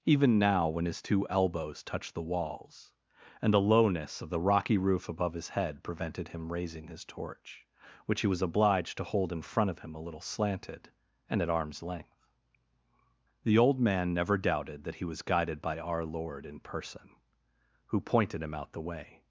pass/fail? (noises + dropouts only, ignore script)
pass